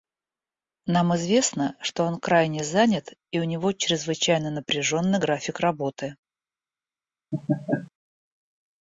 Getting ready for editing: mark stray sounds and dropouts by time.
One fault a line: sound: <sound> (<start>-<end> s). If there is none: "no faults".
sound: laugh (7.3-7.9 s)